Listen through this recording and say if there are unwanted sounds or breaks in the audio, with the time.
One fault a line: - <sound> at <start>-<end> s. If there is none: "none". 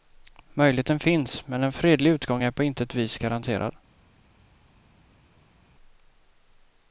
none